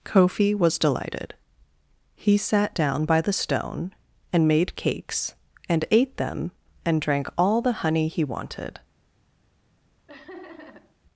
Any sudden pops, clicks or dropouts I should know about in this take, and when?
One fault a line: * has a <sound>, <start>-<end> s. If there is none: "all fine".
* has a laugh, 10.1-11.0 s